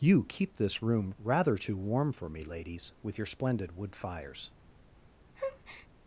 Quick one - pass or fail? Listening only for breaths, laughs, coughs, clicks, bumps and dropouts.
fail